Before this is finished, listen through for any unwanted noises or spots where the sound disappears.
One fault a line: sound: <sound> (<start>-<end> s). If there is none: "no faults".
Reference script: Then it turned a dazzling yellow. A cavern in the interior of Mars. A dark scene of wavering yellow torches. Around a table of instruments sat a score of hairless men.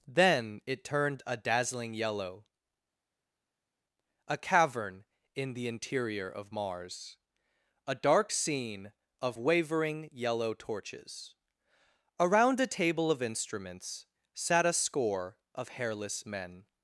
no faults